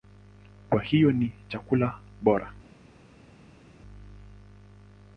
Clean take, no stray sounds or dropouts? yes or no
yes